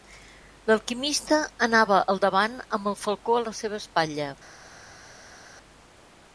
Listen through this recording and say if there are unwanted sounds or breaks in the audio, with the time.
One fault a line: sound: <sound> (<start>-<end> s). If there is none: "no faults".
no faults